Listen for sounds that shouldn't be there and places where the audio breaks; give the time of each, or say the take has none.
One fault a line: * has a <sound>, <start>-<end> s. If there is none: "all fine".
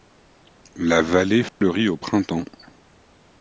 * has a dropout, 1.5-1.6 s